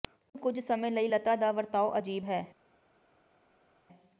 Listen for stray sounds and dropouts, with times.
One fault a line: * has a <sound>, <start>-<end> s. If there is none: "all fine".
all fine